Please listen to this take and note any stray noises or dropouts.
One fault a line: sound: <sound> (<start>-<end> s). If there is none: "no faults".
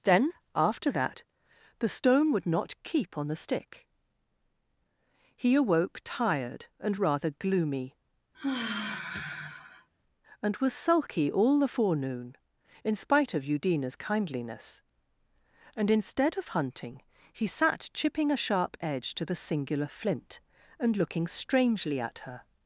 sound: sigh (8.3-9.9 s)